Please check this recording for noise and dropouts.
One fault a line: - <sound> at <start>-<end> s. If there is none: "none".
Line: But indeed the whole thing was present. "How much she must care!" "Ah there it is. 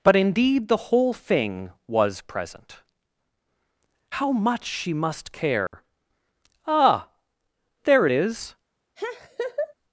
- dropout at 5.7-5.7 s
- laugh at 9.0-9.7 s